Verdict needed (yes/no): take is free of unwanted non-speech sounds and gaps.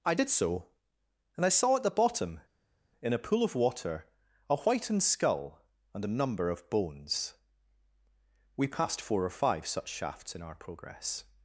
yes